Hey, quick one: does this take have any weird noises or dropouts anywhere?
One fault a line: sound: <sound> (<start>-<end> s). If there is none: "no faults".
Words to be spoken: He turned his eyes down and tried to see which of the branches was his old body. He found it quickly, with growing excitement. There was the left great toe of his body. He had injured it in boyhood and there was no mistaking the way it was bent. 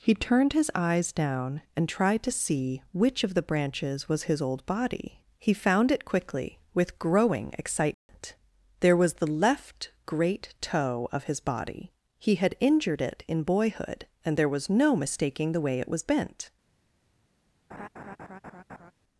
sound: dropout (7.9-8.1 s)
sound: laugh (17.7-18.9 s)